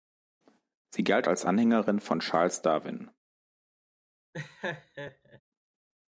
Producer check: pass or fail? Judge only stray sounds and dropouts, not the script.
fail